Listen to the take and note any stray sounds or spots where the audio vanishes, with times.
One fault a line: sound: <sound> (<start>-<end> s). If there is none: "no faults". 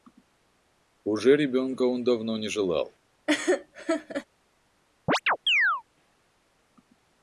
sound: laugh (3.3-4.3 s)
sound: chirp (5.1-5.8 s)